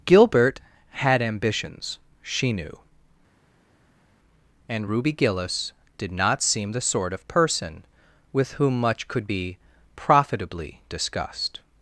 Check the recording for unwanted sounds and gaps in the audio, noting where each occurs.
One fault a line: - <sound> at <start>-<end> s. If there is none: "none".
none